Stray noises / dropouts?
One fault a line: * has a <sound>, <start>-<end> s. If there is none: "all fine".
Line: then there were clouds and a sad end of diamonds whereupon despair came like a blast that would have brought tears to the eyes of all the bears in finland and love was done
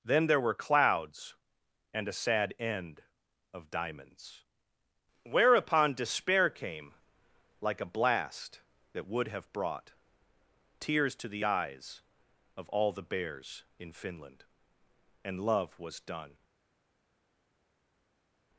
all fine